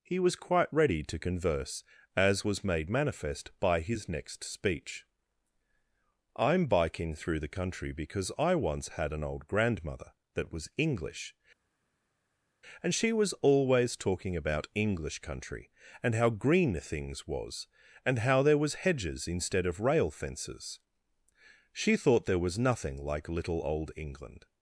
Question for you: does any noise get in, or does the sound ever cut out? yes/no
no